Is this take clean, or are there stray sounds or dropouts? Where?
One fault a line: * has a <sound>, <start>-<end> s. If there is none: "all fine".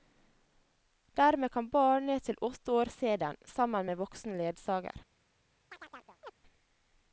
* has a chirp, 5.7-6.3 s